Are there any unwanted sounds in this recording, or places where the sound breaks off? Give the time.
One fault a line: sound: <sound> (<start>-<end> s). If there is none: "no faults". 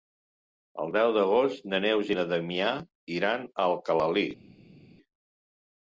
no faults